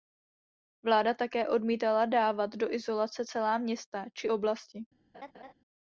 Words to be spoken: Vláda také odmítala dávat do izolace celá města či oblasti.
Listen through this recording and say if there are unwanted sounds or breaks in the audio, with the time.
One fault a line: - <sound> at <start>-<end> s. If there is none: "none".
- laugh at 5.1-5.5 s